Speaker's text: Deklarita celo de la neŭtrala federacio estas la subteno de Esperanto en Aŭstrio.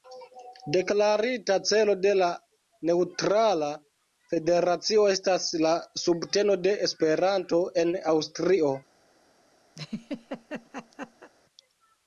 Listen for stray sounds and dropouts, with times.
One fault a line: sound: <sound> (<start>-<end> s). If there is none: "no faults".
sound: laugh (9.7-11.3 s)